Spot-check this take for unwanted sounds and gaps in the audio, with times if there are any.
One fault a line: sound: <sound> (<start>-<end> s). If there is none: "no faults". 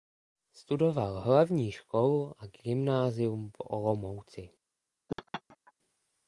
sound: laugh (5.1-5.7 s)